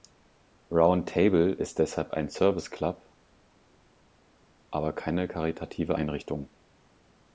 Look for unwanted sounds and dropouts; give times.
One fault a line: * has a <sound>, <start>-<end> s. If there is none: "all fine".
all fine